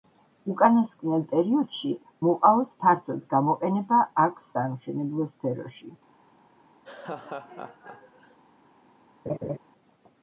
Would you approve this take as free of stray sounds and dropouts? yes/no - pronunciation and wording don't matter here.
no